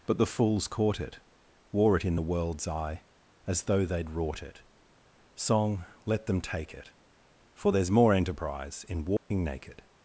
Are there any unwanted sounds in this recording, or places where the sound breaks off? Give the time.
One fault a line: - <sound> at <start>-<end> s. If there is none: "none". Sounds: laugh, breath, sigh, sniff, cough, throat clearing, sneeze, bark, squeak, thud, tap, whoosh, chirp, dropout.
- dropout at 9.2-9.3 s